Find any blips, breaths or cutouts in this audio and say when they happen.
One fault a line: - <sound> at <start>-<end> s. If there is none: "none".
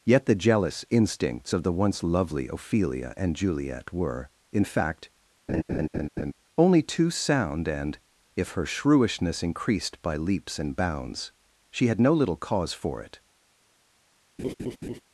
- laugh at 5.5-6.3 s
- laugh at 14.4-15.0 s